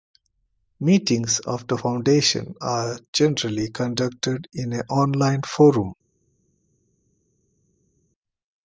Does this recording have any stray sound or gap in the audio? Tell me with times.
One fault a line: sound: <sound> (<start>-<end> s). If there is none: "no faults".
no faults